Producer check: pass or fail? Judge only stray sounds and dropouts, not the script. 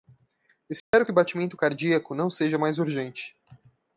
fail